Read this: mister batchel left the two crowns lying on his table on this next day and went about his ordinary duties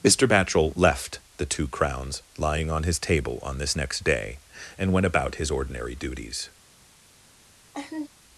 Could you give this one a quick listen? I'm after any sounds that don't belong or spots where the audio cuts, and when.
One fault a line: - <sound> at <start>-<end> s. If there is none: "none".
- laugh at 7.7-8.1 s